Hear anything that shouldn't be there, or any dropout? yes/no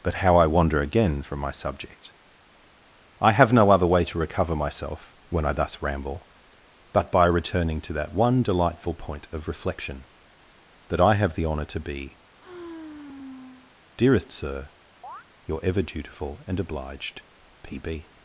yes